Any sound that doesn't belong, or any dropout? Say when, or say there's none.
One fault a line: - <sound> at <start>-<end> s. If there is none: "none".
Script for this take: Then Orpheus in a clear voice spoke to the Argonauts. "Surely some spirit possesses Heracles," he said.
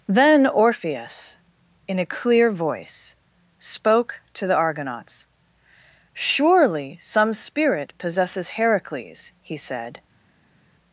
none